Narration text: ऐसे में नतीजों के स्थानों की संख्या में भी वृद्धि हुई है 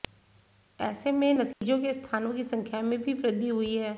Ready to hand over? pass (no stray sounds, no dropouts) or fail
fail